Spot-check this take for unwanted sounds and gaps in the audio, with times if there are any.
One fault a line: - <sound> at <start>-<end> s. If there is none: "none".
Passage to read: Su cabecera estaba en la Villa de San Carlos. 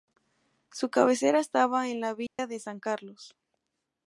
- dropout at 2.3-2.4 s